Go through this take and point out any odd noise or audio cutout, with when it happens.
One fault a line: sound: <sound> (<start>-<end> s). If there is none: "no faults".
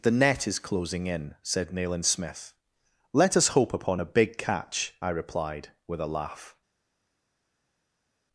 no faults